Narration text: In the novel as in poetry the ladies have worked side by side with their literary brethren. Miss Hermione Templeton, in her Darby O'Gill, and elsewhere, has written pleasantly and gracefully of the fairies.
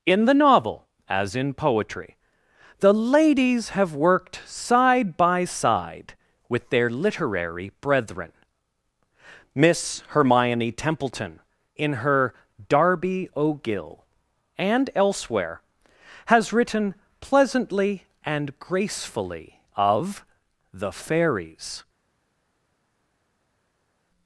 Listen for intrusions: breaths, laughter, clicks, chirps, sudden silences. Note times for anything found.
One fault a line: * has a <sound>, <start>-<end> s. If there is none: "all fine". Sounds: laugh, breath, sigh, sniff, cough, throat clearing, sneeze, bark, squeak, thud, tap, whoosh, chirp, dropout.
all fine